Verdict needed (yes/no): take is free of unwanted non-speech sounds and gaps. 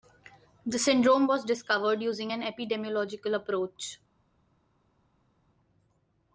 yes